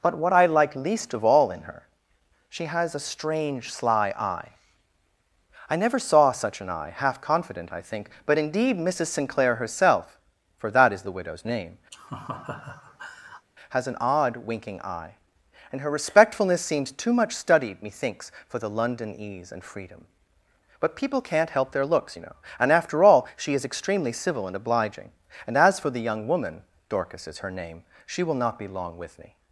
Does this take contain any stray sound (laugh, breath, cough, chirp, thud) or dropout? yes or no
yes